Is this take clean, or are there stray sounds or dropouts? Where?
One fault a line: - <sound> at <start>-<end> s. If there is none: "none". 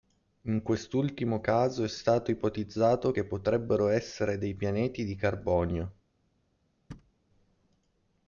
- thud at 6.9-7.1 s